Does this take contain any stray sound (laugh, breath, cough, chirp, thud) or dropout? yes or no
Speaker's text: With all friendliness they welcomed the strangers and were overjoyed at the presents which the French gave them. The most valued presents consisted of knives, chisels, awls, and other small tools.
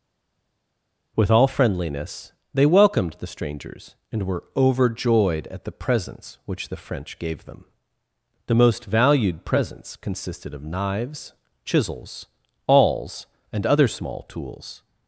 no